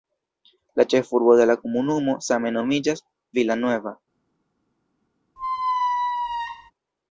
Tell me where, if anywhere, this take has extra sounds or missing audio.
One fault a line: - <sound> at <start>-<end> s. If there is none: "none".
- squeak at 5.4-6.7 s